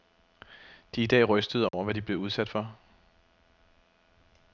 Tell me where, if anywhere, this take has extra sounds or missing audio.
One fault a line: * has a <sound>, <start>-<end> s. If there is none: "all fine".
* has a dropout, 1.7-1.7 s